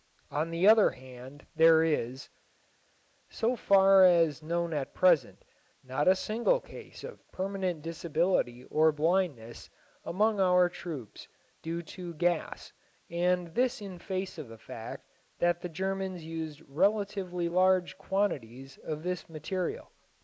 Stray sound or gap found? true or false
false